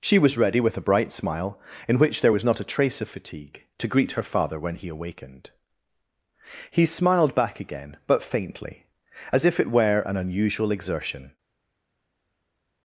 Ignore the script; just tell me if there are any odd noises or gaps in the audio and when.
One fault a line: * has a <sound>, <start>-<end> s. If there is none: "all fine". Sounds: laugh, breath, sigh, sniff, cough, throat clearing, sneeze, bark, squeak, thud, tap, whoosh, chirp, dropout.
all fine